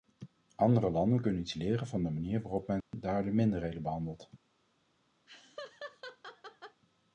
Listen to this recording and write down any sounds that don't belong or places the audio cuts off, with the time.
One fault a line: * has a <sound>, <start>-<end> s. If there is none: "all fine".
* has a dropout, 2.8-2.9 s
* has a laugh, 5.3-6.8 s